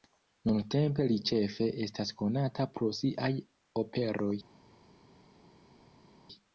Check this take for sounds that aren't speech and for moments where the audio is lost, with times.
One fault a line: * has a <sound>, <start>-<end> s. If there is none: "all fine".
all fine